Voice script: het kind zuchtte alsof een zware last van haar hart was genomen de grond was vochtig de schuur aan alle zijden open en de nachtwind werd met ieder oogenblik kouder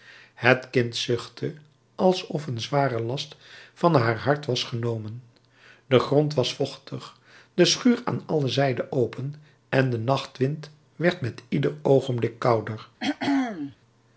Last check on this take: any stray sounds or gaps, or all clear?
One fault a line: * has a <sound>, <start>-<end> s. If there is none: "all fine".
* has a throat clearing, 13.0-13.8 s